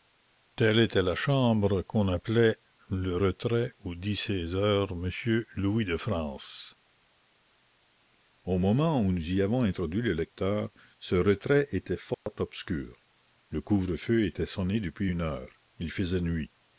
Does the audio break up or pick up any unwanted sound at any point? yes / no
yes